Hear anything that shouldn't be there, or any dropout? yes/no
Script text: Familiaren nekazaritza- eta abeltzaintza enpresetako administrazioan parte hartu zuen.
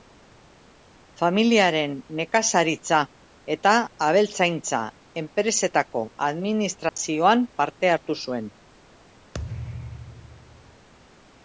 yes